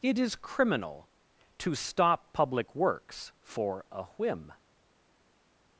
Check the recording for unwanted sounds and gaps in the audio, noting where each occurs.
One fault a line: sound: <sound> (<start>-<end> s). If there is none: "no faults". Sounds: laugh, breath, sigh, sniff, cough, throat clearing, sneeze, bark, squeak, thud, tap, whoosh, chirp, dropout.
no faults